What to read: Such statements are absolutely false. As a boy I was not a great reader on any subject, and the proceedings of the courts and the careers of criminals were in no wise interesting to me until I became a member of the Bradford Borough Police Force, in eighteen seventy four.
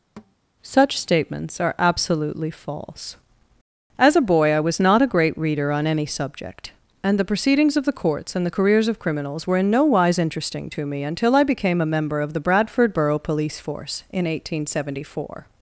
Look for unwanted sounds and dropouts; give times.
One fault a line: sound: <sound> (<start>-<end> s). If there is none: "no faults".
sound: thud (0.2-0.3 s)